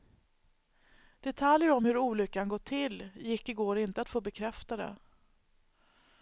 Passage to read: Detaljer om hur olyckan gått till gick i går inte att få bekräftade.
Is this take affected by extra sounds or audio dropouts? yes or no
no